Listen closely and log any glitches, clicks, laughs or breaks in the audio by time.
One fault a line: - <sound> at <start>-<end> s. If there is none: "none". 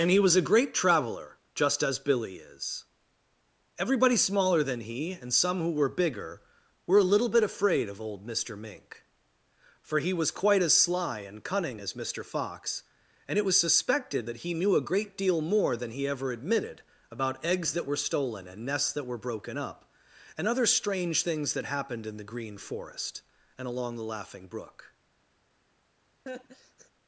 - laugh at 26.3-26.9 s